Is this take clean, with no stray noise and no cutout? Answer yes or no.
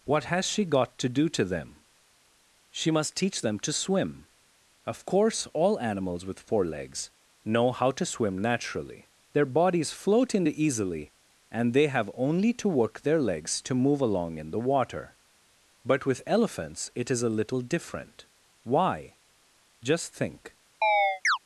no